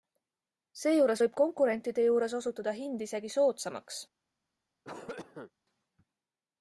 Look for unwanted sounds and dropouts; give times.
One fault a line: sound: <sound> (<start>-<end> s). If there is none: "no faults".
sound: cough (4.8-5.5 s)